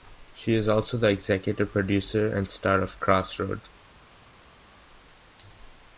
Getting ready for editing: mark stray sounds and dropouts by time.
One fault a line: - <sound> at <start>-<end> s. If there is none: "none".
none